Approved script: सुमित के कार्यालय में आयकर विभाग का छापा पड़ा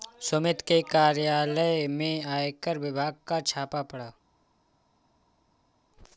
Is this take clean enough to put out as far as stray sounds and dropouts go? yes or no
yes